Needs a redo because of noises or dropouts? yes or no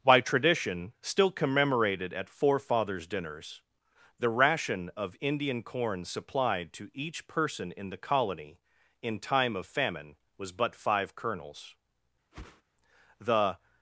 yes